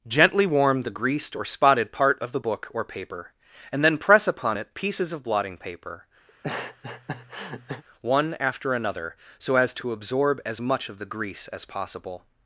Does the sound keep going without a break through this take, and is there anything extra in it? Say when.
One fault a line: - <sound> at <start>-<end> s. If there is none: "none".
- laugh at 6.3-7.8 s